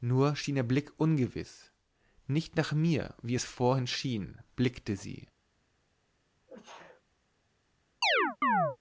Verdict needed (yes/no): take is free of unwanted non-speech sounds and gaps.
no